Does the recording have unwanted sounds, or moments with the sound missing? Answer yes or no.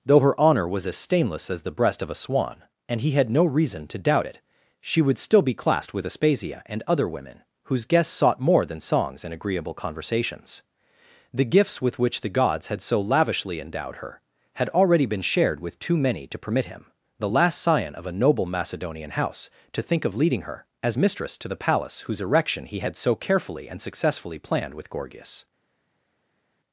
no